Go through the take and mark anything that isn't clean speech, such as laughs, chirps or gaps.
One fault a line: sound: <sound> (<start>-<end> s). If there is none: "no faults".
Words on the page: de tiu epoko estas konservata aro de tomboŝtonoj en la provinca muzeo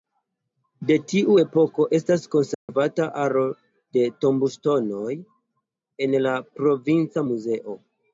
sound: dropout (2.5-2.7 s)